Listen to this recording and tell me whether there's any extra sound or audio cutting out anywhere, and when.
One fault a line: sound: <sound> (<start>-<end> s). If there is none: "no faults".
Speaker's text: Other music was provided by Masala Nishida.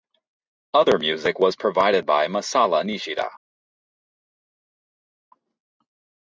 no faults